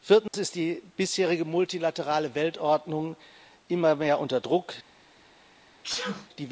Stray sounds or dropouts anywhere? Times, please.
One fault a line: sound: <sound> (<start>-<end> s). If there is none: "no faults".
sound: dropout (0.3-0.3 s)
sound: sneeze (5.8-6.3 s)